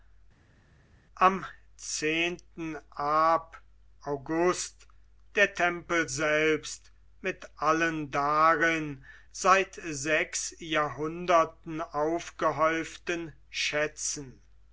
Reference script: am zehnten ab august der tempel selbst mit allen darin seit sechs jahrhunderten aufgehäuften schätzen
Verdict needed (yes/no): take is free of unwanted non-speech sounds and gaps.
yes